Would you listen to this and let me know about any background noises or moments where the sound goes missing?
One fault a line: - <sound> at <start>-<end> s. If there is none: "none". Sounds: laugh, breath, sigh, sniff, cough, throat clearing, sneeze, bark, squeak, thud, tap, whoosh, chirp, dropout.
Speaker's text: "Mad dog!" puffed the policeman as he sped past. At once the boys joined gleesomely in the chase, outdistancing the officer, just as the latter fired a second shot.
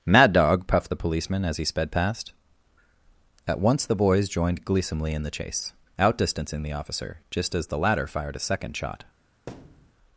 - thud at 9.5-10.0 s